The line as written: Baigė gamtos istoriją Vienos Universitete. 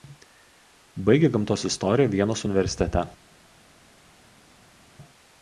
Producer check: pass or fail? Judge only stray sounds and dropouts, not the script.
pass